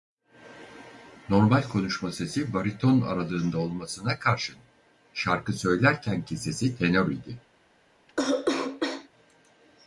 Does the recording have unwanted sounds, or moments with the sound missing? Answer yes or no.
yes